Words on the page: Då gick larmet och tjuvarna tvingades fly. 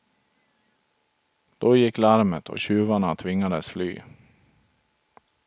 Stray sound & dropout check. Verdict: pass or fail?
pass